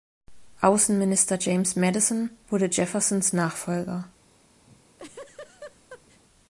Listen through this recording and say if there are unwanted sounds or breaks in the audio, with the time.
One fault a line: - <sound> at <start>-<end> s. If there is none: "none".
- laugh at 4.7-6.2 s